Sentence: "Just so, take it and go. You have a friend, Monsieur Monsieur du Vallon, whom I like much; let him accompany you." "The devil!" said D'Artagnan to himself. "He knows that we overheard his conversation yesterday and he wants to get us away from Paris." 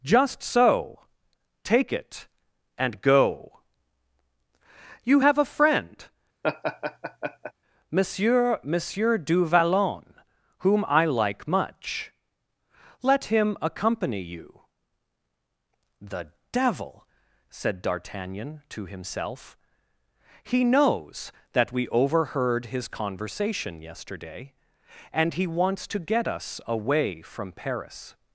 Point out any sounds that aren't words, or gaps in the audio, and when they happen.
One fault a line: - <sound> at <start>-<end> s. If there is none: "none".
- laugh at 6.4-7.5 s